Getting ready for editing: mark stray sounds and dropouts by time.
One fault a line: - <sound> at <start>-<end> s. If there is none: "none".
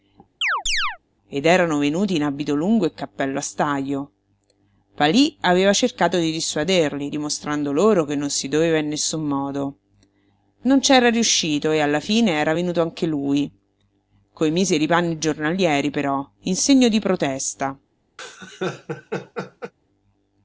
- chirp at 0.4-1.0 s
- laugh at 18.2-19.7 s